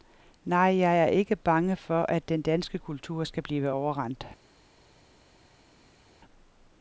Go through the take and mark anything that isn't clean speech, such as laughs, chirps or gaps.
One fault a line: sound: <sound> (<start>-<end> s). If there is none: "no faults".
no faults